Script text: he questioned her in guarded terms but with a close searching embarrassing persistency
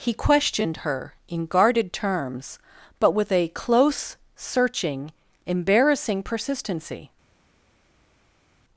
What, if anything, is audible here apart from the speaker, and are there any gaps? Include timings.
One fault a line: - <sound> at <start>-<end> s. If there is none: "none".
none